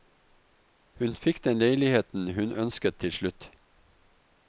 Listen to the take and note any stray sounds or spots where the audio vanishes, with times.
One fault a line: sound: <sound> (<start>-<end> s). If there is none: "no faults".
no faults